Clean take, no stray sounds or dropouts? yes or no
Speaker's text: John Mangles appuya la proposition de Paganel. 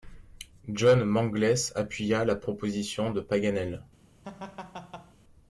no